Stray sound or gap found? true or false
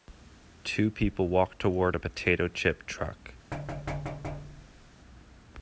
true